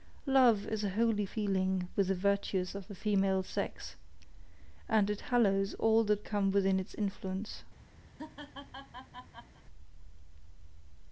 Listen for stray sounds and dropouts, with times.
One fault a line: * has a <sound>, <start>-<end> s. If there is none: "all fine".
* has a laugh, 8.1-9.6 s